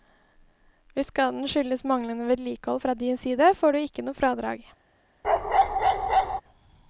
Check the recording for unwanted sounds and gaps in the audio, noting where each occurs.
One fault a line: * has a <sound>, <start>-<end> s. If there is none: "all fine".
* has a bark, 5.2-6.4 s